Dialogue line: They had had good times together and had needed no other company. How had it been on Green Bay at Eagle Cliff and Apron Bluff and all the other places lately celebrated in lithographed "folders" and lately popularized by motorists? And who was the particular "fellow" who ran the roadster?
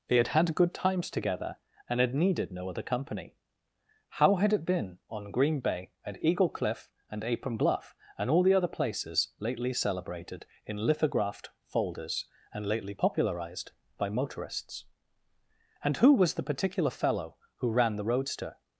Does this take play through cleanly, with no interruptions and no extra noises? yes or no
yes